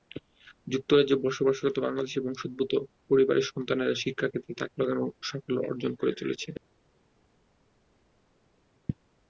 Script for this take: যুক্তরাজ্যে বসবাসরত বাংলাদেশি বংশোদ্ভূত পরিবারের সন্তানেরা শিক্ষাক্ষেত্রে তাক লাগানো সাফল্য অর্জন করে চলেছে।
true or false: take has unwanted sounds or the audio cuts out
false